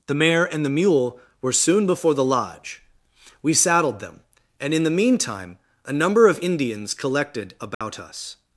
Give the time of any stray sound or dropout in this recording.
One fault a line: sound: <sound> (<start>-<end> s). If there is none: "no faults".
sound: dropout (7.7-7.8 s)